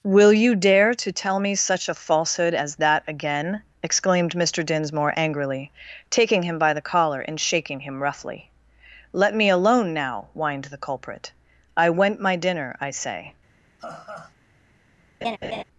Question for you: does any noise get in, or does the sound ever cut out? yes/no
yes